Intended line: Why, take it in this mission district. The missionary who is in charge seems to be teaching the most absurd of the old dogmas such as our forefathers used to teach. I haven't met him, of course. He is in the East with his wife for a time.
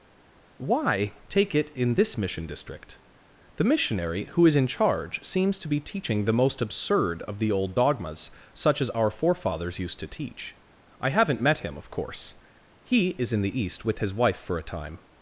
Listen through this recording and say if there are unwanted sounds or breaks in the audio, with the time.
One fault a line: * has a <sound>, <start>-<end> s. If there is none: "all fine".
all fine